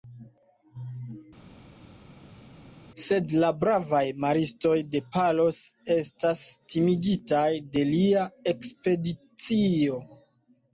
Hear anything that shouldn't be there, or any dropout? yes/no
no